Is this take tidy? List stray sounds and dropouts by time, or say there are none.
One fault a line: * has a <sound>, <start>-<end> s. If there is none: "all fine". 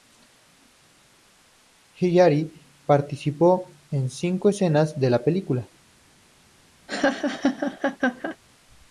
* has a laugh, 6.9-8.4 s